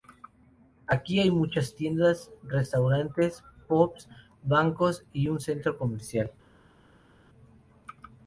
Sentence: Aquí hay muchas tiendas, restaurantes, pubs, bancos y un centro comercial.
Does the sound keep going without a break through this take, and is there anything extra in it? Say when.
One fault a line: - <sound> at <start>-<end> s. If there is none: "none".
none